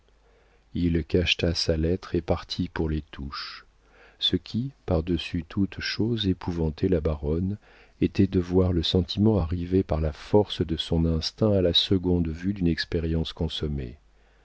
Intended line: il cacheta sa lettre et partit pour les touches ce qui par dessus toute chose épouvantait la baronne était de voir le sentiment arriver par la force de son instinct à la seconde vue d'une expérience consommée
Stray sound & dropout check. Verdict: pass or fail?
pass